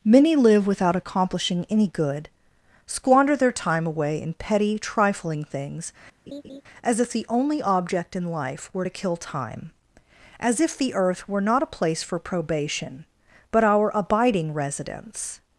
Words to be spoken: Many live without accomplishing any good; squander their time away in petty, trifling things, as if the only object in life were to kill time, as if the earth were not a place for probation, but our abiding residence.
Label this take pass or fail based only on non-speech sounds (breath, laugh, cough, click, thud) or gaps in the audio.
fail